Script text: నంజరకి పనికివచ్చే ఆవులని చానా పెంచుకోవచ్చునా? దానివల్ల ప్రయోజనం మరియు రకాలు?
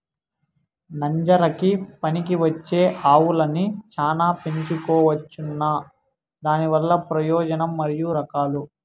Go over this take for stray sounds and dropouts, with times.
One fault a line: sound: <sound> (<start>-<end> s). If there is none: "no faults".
no faults